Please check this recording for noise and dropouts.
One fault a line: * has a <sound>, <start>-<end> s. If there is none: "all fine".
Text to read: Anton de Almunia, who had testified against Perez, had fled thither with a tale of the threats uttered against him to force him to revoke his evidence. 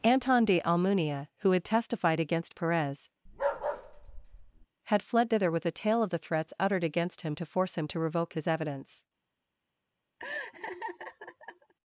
* has a bark, 3.3-4.7 s
* has a laugh, 10.2-11.7 s